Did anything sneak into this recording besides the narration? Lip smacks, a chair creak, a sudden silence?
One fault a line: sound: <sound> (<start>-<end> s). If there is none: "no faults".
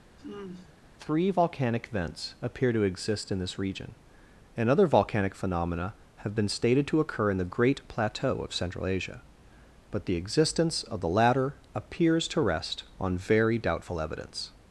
sound: sigh (0.2-0.8 s)